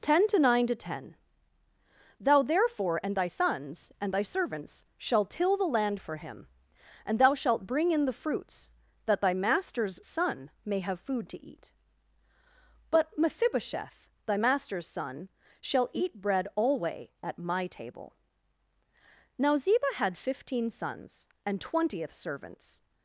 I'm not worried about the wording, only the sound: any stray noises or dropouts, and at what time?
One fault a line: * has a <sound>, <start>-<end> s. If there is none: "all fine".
all fine